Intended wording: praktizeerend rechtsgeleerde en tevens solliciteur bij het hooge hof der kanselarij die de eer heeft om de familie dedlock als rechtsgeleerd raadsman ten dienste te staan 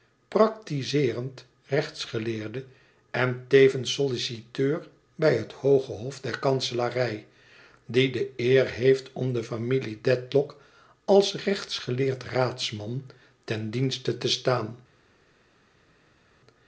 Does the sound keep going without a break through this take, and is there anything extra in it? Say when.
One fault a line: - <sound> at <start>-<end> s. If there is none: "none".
none